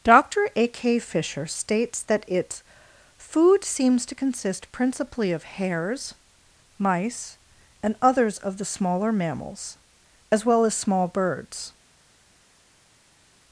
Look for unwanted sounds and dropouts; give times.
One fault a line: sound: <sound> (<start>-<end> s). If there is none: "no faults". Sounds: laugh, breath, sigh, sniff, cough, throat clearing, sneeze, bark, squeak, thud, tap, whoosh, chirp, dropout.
no faults